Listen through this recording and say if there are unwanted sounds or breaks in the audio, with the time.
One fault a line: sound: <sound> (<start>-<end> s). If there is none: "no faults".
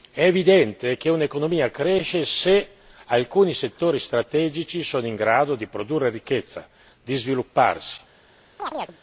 sound: chirp (8.6-9.0 s)